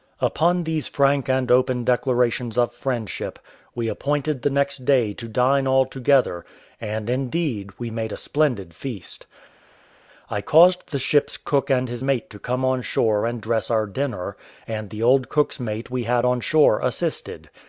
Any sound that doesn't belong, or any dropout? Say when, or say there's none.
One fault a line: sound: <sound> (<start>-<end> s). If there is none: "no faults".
no faults